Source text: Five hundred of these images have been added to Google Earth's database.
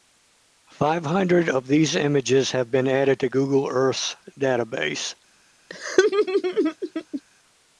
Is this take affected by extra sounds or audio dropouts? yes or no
yes